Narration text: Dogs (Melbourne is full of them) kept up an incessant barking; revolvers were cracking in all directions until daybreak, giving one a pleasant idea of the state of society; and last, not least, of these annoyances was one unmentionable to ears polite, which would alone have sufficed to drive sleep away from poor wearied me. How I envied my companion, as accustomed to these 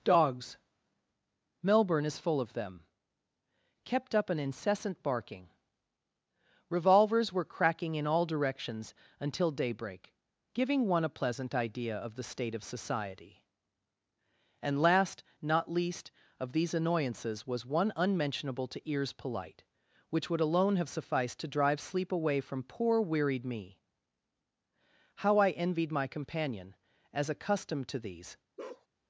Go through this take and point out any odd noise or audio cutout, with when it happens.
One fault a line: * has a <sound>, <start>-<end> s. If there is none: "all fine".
* has a bark, 28.6-28.9 s